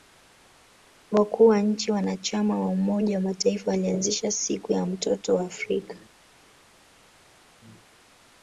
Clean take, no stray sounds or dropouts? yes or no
yes